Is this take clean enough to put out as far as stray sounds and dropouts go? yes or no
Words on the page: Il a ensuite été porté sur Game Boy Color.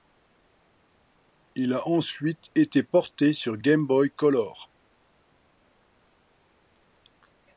yes